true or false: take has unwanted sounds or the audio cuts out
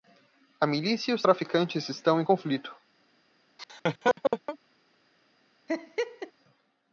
true